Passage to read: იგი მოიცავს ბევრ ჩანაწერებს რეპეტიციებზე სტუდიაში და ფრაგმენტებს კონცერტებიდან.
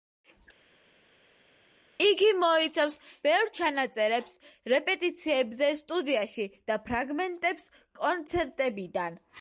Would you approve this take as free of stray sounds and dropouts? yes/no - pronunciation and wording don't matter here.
yes